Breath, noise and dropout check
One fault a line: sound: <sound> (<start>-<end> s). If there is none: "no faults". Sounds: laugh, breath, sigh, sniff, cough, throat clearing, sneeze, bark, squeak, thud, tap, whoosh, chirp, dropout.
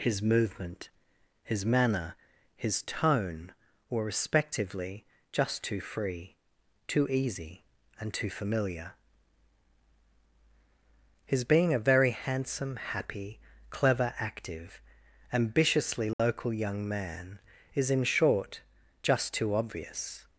sound: dropout (16.1-16.2 s)